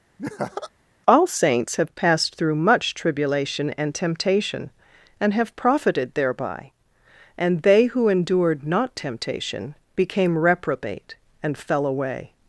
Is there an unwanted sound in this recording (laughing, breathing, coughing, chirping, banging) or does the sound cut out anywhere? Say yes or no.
yes